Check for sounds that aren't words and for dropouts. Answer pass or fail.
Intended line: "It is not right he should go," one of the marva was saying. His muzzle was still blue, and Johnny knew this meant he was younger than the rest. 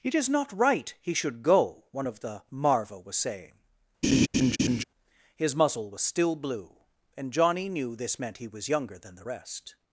fail